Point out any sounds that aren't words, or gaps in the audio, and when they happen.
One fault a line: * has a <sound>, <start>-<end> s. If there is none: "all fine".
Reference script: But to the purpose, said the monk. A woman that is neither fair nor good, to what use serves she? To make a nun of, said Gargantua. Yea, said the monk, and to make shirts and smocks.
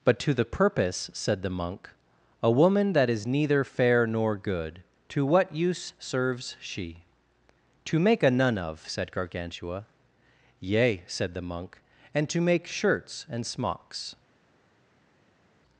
all fine